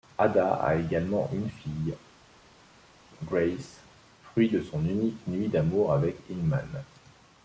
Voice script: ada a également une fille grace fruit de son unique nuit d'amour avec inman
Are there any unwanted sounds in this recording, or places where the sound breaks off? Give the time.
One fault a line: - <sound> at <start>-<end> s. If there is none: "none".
none